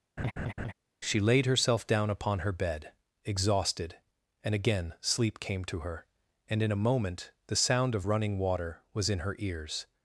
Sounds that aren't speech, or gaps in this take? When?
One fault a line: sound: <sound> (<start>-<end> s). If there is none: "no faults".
sound: laugh (0.2-0.7 s)